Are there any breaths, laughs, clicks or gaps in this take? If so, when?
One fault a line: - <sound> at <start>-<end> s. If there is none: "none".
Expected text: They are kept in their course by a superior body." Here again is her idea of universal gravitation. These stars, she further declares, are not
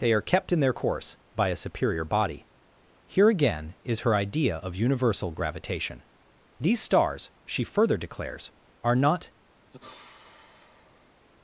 - sigh at 9.7-11.3 s